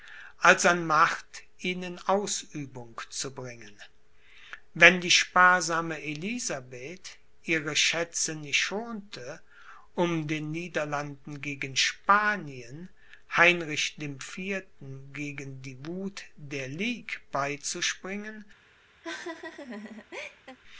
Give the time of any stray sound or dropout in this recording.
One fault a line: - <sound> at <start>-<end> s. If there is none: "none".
- laugh at 19.0-20.6 s